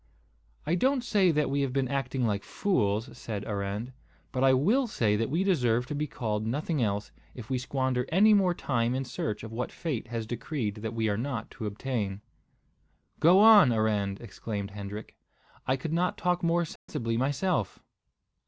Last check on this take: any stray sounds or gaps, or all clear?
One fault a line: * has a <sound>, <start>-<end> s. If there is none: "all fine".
* has a dropout, 16.8-16.9 s